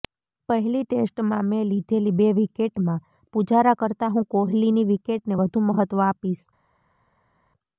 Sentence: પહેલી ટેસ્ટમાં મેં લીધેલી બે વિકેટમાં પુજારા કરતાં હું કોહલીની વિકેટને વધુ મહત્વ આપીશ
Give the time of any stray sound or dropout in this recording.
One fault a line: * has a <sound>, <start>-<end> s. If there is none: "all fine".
all fine